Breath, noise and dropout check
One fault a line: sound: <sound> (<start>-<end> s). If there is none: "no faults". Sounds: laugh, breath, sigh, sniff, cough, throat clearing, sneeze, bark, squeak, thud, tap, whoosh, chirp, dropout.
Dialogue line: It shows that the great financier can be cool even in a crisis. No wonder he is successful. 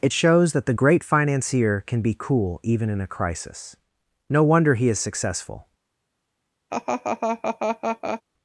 sound: laugh (6.7-8.2 s)